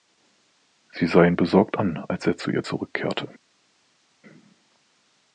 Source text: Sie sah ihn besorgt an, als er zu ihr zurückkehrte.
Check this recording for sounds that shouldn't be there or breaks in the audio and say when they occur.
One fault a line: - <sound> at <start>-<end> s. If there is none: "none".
none